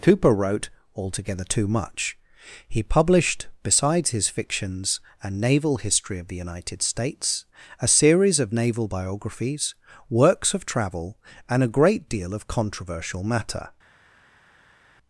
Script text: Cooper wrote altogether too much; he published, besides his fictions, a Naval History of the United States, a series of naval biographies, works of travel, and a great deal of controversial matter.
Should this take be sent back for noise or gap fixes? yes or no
no